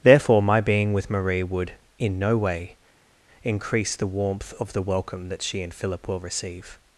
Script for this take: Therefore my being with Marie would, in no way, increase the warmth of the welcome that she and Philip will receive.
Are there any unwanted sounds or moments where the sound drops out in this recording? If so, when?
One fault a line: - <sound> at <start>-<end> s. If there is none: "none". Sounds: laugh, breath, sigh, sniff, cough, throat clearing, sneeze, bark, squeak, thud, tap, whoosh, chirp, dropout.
none